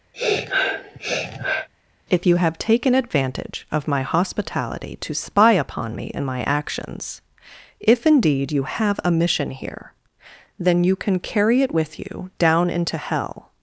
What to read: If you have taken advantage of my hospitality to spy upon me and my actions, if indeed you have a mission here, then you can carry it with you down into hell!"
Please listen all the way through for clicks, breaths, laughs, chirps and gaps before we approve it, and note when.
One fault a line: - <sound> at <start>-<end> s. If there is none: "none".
- sniff at 0.1-1.7 s